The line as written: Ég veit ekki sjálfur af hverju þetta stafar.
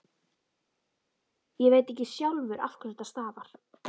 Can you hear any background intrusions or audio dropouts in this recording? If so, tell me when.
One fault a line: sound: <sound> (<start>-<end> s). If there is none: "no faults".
no faults